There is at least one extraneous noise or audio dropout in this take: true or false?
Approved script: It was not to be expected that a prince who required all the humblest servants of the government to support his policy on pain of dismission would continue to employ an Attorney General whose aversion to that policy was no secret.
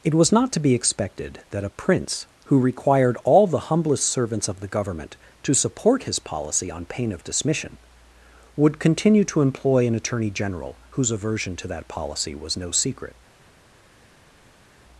false